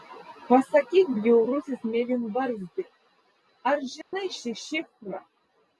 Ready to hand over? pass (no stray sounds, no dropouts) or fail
fail